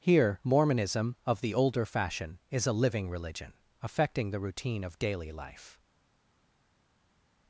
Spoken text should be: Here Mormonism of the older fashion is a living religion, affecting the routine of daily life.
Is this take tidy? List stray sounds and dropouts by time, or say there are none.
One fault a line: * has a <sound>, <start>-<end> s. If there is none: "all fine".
all fine